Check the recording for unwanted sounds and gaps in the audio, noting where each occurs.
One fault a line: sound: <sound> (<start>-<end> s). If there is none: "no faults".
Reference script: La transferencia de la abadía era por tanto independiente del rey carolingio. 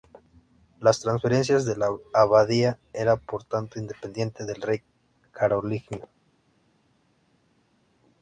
no faults